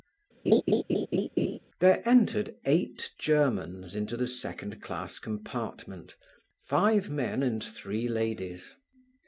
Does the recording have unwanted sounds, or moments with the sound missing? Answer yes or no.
yes